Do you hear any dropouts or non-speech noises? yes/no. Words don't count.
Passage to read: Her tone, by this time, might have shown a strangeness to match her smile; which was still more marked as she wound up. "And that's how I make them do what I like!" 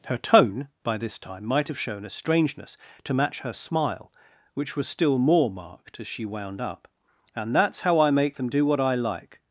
no